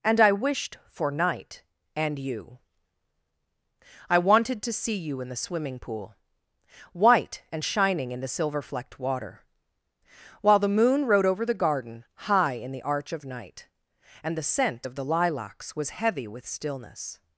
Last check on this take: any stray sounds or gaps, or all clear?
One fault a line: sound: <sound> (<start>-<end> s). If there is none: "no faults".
no faults